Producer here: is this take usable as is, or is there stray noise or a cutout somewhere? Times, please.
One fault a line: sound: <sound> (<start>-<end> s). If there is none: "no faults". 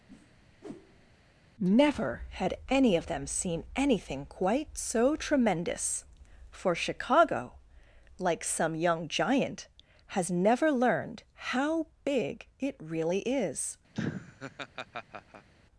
sound: whoosh (0.1-1.2 s)
sound: laugh (13.9-15.5 s)